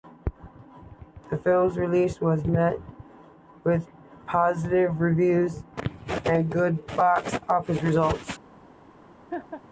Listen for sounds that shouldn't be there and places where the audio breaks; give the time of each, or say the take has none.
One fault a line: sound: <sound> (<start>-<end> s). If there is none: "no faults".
sound: laugh (9.3-9.6 s)